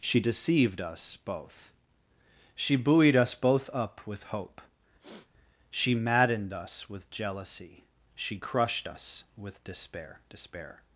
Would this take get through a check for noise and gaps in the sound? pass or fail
fail